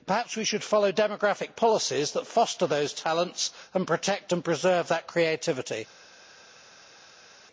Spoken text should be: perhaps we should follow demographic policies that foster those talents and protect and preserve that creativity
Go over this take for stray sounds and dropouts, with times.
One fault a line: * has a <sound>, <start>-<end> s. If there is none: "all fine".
all fine